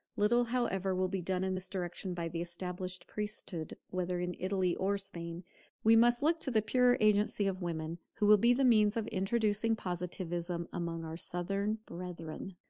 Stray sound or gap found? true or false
false